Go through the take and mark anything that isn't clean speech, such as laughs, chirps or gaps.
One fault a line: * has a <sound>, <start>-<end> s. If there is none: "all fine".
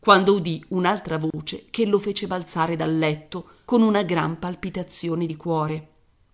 * has a dropout, 1.3-1.3 s